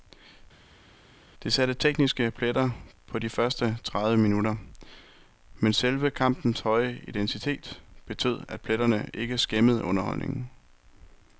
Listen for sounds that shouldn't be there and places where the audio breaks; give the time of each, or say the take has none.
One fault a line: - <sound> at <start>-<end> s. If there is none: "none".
none